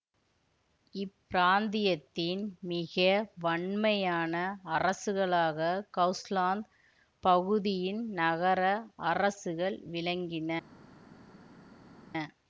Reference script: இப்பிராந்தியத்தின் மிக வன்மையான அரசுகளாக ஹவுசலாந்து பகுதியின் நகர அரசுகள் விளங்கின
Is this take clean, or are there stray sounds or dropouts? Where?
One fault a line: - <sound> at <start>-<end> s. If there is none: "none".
none